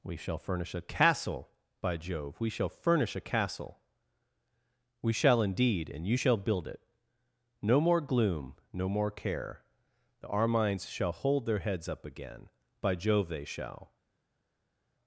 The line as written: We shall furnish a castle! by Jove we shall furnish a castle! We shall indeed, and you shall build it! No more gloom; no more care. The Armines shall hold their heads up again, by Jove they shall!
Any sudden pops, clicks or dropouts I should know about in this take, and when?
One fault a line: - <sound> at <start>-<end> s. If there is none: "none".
none